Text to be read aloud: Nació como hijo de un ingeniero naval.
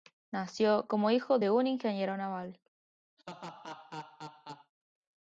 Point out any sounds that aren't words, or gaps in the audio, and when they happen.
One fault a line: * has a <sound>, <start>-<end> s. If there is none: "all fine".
* has a laugh, 3.2-4.7 s